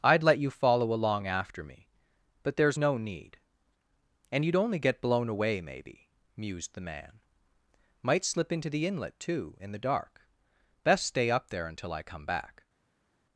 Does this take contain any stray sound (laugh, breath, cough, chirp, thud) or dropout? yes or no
no